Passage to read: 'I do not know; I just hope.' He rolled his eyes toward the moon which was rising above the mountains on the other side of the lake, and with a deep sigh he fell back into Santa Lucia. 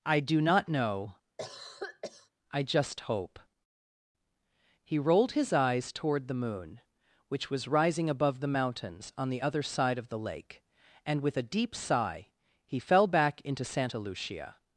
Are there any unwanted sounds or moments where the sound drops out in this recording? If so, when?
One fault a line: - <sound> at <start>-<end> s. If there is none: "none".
- cough at 1.4-2.3 s